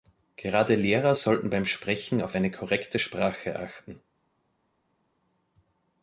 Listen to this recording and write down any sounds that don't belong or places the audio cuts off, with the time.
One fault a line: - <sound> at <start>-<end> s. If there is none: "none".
none